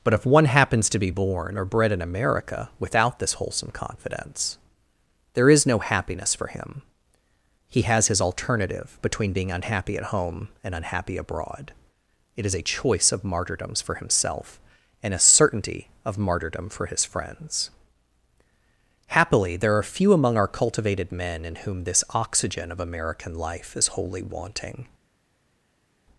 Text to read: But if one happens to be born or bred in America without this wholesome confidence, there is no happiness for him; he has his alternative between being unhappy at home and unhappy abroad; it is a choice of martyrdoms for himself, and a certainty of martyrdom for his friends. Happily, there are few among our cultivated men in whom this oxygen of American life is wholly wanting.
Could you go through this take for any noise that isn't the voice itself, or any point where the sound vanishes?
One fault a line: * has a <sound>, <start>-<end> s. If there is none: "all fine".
all fine